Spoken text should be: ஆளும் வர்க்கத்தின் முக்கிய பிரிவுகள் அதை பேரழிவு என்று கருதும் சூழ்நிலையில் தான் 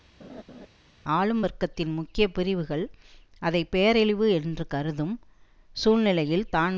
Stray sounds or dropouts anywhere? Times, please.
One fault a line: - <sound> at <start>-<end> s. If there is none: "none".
- laugh at 0.2-0.7 s